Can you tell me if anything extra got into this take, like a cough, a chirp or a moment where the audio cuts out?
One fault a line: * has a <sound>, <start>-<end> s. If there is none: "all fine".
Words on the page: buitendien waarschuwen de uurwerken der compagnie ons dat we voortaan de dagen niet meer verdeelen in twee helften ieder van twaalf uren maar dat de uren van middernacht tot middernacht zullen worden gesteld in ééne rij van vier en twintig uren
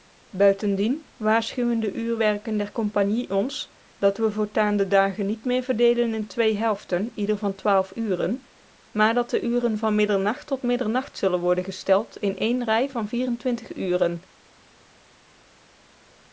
all fine